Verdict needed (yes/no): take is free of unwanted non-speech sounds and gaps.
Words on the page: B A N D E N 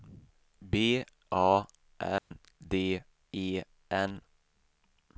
no